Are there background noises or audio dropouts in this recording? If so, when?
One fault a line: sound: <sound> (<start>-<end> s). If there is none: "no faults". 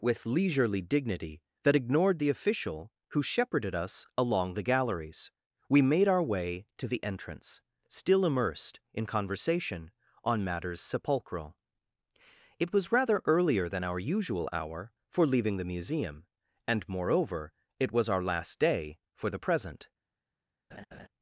sound: laugh (20.7-21.1 s)